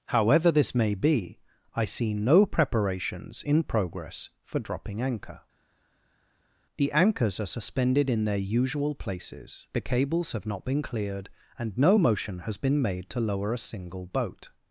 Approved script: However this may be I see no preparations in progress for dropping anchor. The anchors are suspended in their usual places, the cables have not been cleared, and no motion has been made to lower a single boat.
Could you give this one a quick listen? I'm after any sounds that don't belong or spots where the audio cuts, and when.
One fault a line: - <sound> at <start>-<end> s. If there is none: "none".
none